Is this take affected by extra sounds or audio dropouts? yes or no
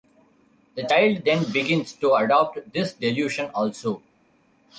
no